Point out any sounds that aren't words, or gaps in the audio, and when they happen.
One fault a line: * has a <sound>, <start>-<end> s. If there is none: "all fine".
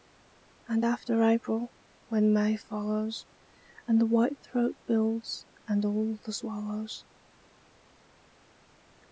all fine